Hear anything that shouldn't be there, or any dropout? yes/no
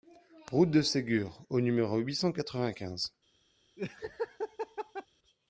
yes